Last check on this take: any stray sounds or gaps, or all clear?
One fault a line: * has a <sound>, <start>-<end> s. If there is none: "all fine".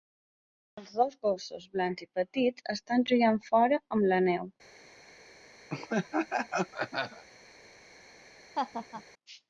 * has a laugh, 5.7-7.2 s
* has a laugh, 8.6-9.0 s